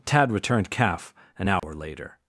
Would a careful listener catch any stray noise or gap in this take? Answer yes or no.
yes